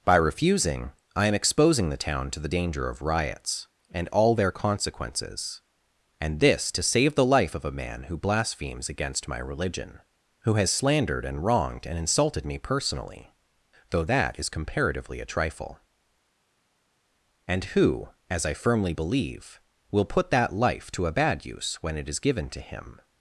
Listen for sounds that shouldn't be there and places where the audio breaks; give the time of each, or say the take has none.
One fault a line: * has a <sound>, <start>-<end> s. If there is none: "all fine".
all fine